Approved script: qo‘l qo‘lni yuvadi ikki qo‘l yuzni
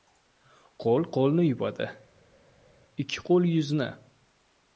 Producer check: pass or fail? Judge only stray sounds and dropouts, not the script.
pass